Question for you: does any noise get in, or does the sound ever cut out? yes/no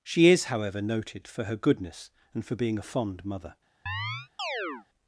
yes